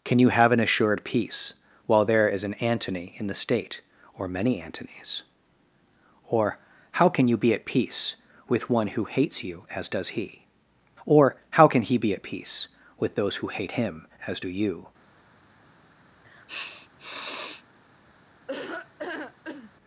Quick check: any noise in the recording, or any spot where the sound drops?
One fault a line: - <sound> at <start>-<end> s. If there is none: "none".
- sniff at 16.2-17.6 s
- laugh at 18.5-19.7 s